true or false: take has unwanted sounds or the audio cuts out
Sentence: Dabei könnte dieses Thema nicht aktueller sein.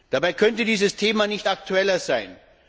false